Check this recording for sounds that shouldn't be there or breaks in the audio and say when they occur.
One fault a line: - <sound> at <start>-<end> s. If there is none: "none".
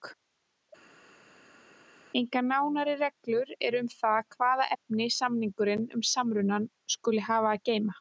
none